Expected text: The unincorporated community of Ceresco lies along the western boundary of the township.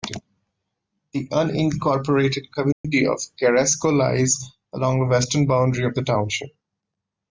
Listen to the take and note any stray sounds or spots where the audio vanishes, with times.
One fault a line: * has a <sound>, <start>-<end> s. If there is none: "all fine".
* has a dropout, 2.7-2.8 s